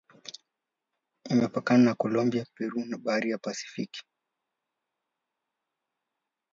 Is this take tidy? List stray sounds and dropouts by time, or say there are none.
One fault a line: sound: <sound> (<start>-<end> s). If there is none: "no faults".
no faults